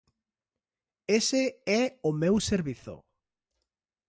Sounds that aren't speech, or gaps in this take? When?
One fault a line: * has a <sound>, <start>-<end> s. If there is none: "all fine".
all fine